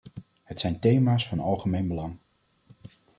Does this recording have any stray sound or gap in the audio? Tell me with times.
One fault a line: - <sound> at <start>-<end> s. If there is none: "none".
none